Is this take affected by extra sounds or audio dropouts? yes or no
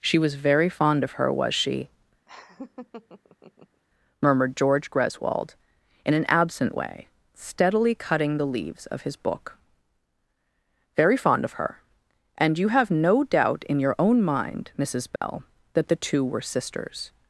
yes